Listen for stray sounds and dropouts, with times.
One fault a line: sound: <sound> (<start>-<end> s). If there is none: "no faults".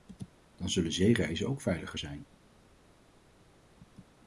no faults